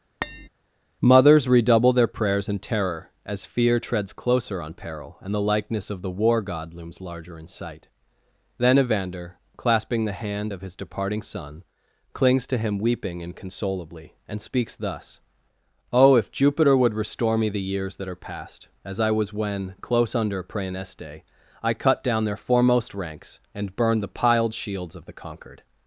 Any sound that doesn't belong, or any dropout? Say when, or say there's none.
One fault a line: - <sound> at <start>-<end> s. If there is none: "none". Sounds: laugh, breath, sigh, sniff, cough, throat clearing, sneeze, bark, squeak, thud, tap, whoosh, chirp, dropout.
- tap at 0.2-0.5 s